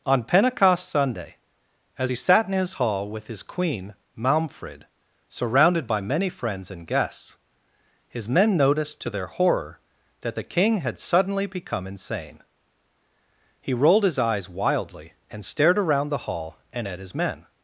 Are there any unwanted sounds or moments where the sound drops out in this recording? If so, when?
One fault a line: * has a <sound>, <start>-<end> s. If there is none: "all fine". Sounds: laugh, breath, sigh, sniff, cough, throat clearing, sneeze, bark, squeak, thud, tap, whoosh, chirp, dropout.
all fine